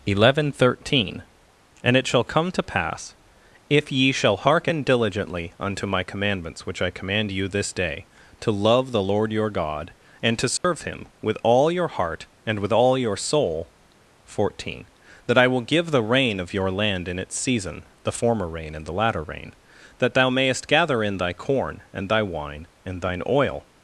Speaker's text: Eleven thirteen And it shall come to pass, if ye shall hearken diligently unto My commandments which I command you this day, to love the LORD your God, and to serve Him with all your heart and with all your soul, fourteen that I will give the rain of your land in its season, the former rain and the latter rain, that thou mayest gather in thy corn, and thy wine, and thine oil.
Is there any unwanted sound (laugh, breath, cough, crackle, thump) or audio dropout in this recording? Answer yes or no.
yes